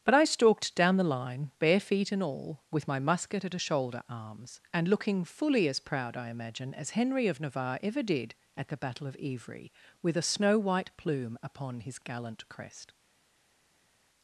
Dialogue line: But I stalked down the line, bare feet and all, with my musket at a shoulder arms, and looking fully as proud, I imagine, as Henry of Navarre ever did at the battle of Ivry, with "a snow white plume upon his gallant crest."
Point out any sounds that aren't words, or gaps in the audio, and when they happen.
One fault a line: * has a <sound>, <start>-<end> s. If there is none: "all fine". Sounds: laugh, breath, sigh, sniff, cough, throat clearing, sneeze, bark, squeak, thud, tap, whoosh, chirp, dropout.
all fine